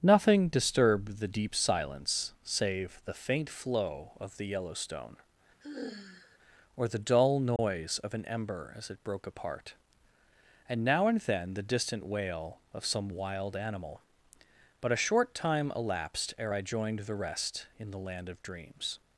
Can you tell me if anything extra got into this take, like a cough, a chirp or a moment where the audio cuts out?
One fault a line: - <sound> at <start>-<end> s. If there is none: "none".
- sigh at 5.6-6.4 s
- dropout at 7.6-7.6 s